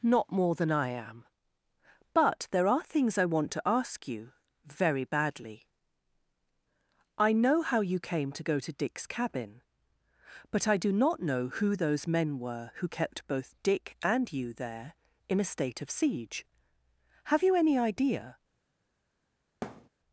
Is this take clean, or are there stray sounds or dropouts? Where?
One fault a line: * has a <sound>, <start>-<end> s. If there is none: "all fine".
* has a thud, 19.6-19.9 s